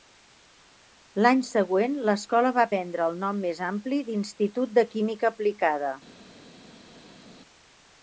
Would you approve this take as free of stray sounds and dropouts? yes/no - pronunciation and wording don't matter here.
yes